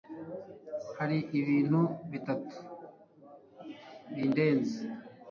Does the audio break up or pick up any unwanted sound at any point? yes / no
no